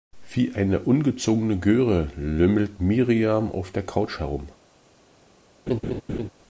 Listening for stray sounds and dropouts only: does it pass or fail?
fail